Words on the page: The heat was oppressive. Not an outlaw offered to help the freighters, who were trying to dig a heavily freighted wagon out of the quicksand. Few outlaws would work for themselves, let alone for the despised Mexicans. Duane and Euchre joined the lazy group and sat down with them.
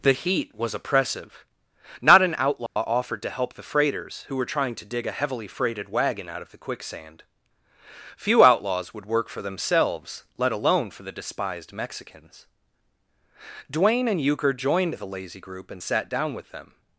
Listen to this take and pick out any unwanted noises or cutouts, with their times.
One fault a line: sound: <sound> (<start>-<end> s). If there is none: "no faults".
sound: dropout (2.7-2.8 s)